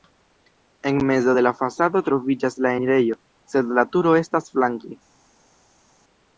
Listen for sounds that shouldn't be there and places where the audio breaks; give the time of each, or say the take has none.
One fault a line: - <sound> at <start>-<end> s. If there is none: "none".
none